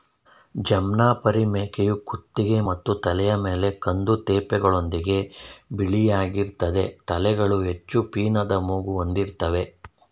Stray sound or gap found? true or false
false